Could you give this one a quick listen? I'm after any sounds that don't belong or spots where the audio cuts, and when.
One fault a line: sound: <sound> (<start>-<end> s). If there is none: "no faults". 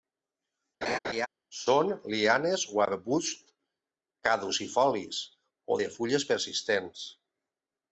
sound: laugh (0.8-1.3 s)